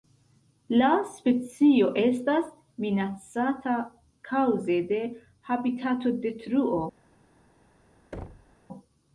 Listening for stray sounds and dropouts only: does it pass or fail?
fail